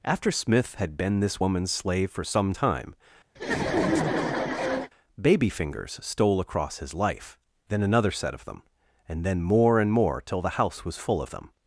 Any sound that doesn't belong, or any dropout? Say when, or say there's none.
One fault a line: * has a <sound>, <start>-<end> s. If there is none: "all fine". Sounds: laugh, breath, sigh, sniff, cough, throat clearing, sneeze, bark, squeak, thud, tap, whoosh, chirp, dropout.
* has a laugh, 3.4-4.9 s